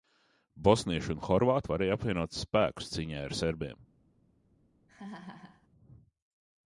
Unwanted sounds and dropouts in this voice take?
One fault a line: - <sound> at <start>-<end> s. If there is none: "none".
- laugh at 4.9-5.7 s